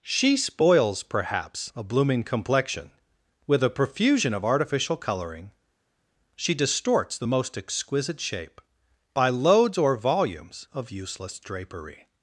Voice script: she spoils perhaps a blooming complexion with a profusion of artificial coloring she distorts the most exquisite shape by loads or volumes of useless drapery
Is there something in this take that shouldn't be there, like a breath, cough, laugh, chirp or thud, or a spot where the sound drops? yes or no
no